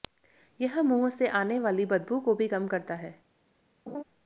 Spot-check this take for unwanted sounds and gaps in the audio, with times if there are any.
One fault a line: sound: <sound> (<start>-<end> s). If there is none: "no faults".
sound: laugh (3.9-4.0 s)